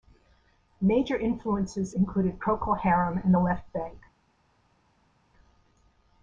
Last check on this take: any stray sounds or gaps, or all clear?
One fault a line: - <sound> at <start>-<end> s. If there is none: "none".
none